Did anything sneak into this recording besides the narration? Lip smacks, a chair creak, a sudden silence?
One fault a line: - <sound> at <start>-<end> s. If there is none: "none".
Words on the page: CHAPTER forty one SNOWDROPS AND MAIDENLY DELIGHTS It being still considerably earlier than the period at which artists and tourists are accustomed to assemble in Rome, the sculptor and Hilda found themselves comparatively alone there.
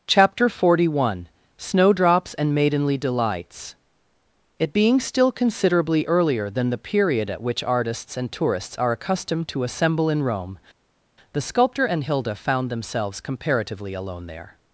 none